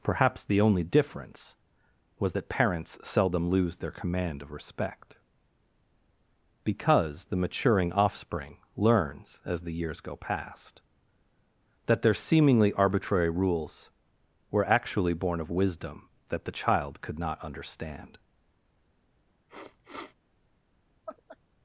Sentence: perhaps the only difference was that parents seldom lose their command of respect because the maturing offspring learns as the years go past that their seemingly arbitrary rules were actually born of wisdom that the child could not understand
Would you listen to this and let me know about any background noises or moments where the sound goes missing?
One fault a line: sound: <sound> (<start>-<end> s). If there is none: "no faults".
sound: sniff (19.5-20.2 s)
sound: laugh (21.1-21.4 s)